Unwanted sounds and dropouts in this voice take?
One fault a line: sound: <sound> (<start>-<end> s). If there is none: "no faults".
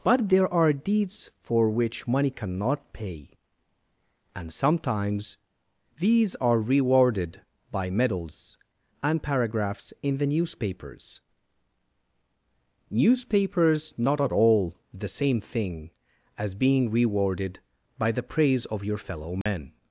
sound: dropout (19.4-19.5 s)